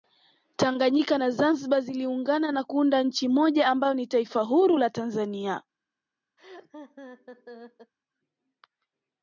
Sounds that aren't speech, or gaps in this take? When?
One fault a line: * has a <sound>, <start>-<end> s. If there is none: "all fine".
* has a laugh, 6.4-7.9 s